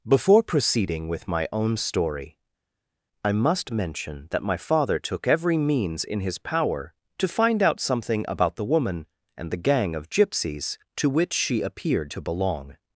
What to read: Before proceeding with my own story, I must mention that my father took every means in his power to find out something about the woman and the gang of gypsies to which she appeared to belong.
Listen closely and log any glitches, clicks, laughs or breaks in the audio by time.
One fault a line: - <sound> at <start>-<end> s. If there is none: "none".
none